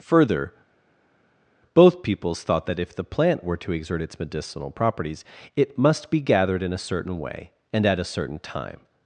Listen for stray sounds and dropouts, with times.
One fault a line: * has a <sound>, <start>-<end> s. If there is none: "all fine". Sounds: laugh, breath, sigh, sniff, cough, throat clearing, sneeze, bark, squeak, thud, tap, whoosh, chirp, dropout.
all fine